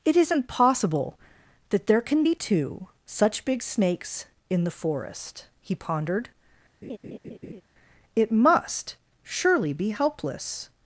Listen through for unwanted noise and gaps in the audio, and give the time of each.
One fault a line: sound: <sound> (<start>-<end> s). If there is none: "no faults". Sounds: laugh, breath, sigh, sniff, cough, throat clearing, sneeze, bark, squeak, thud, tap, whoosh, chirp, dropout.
sound: laugh (6.8-7.6 s)